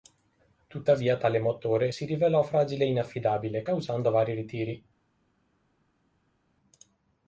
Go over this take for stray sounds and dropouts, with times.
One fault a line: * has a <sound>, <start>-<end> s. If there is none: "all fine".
all fine